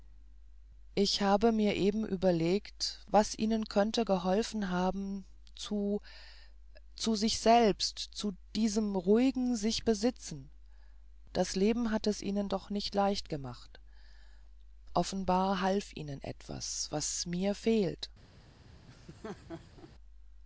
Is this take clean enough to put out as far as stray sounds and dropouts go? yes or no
no